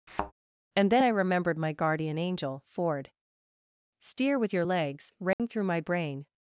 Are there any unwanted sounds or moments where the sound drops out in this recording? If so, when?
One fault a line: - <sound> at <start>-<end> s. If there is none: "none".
- thud at 0.1-0.3 s
- dropout at 5.3-5.4 s